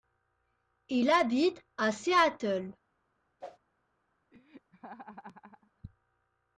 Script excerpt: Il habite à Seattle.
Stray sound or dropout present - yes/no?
yes